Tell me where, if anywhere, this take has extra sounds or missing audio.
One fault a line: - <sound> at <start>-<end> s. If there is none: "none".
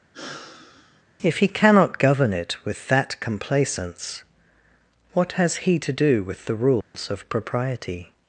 - sigh at 0.1-1.0 s
- dropout at 6.8-6.9 s